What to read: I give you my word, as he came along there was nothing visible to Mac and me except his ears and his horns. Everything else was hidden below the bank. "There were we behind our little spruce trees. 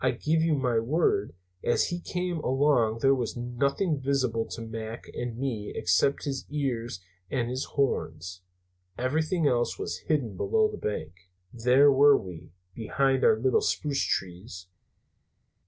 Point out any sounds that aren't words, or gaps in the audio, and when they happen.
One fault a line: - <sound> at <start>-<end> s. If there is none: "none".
none